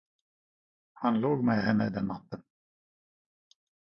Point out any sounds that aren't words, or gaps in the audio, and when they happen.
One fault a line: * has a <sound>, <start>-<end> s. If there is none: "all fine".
all fine